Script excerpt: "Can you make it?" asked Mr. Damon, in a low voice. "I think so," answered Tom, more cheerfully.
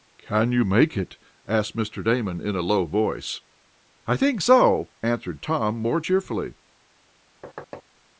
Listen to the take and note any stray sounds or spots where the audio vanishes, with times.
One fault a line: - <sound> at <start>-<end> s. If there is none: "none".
- thud at 7.4-7.8 s